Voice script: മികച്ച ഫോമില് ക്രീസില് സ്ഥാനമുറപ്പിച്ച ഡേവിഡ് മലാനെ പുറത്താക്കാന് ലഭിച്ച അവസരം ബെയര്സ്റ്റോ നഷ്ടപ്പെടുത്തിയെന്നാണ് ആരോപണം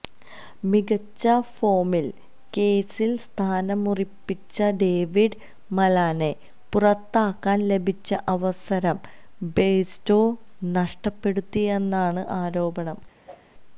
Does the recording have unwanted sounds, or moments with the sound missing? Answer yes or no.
yes